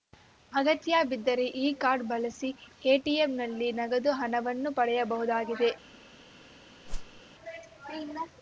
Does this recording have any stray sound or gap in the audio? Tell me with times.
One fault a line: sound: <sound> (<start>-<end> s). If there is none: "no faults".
sound: whoosh (6.8-7.2 s)